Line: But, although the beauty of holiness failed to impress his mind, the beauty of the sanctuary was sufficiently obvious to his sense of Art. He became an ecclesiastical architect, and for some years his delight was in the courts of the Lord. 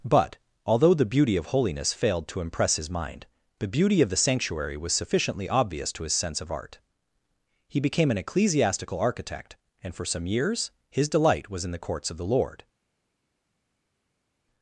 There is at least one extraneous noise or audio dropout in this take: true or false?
false